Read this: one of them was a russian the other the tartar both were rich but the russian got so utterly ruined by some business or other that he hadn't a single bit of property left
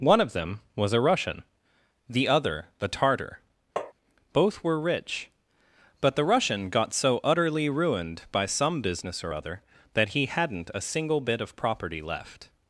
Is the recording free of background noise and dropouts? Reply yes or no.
no